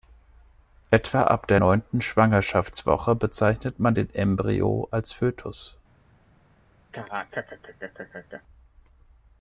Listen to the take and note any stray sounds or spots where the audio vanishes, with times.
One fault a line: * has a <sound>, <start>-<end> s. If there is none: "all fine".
* has a laugh, 6.9-8.4 s